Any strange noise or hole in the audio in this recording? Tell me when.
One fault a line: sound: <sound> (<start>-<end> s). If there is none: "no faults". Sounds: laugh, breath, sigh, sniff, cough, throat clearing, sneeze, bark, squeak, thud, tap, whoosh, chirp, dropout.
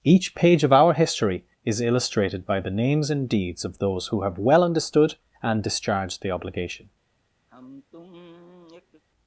sound: sigh (7.5-9.0 s)